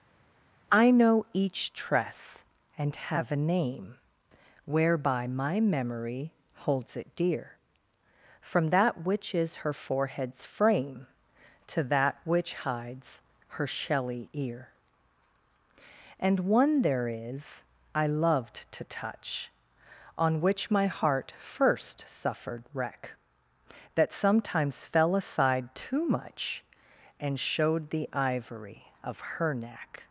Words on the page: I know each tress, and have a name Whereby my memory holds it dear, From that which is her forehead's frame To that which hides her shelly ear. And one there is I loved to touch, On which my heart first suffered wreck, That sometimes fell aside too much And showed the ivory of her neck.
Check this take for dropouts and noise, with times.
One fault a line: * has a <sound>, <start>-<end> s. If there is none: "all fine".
all fine